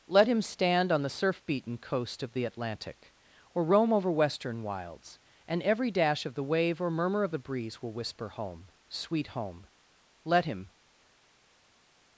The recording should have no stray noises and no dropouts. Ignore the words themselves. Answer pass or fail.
pass